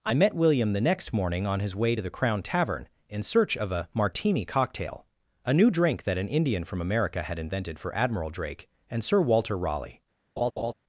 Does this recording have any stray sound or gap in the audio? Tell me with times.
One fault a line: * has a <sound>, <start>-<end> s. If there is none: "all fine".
* has a laugh, 10.4-10.7 s